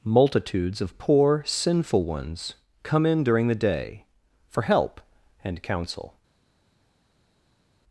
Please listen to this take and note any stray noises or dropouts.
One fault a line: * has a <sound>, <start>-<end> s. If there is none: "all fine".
all fine